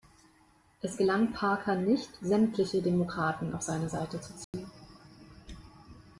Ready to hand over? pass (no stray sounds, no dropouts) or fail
fail